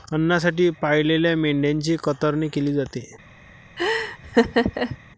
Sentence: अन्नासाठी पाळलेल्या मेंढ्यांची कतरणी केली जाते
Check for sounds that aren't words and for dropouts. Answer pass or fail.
fail